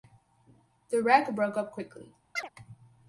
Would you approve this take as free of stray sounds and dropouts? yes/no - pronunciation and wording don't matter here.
no